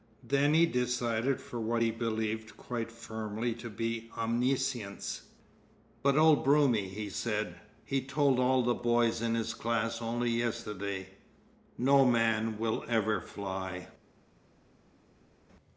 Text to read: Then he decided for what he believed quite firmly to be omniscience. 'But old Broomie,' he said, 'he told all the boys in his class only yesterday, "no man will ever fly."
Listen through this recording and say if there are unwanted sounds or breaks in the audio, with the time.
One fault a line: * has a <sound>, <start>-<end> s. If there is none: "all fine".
all fine